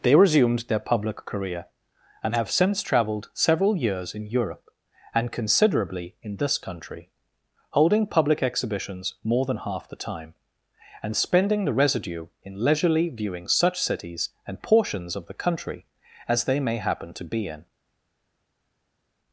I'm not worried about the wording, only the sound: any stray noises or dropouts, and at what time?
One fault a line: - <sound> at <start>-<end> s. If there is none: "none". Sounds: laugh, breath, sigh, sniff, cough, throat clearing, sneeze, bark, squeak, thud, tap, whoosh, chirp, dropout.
none